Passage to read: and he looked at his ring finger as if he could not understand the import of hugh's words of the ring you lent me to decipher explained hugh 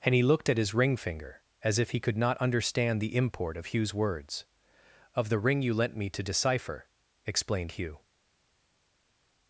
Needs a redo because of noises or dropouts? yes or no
no